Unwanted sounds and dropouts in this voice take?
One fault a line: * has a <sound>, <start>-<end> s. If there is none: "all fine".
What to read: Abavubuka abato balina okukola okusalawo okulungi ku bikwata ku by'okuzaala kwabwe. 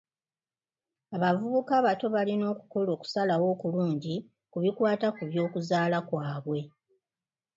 all fine